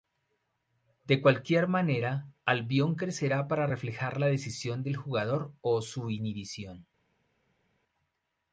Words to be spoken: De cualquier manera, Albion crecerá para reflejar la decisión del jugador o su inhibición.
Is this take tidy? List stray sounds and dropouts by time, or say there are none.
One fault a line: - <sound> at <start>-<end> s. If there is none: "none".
none